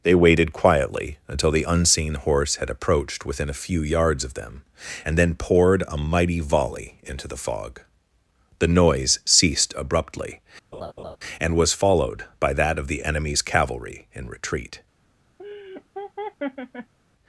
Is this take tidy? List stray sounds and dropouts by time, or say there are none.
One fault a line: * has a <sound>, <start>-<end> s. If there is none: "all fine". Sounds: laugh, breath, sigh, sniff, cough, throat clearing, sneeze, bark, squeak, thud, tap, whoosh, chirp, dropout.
* has a laugh, 10.7-11.2 s
* has a laugh, 15.4-16.9 s